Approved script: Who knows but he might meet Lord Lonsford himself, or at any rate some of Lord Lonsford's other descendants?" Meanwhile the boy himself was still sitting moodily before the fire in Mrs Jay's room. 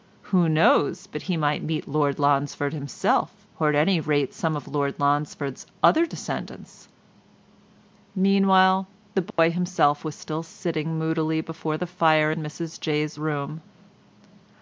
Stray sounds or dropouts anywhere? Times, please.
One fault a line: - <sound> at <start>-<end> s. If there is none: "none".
- dropout at 9.3-9.4 s